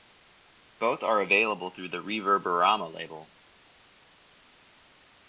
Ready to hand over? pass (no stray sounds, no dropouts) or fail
pass